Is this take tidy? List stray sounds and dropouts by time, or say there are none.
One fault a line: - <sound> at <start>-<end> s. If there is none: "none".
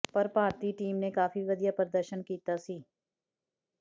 none